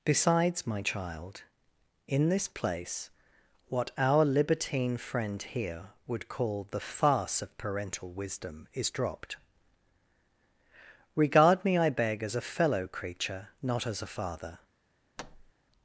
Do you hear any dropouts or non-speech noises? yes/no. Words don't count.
yes